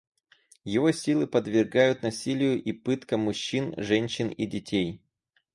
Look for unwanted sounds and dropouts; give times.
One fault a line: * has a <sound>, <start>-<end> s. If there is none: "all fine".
all fine